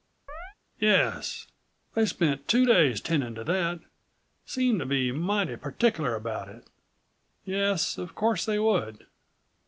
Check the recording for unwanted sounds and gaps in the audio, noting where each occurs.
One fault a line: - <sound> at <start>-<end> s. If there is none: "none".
- chirp at 0.3-0.5 s